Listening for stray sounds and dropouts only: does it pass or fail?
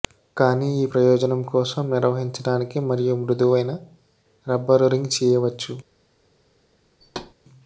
fail